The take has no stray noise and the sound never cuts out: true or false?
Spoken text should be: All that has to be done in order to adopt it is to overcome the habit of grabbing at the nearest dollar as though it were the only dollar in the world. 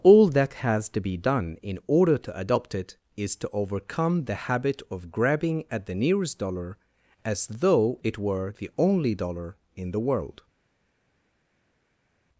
true